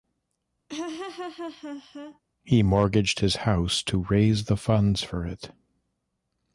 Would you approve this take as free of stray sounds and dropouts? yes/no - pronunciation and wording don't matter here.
no